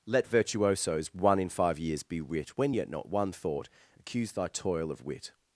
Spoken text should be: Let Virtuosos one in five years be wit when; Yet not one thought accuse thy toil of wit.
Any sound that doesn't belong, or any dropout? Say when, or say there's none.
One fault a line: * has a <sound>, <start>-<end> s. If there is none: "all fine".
all fine